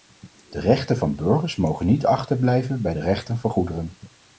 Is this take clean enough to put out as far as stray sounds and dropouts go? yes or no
yes